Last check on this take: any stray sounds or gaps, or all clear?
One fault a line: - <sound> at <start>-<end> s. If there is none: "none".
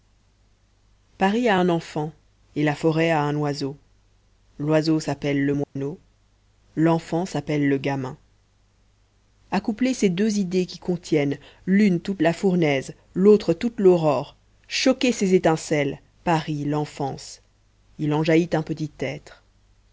- dropout at 5.6-5.8 s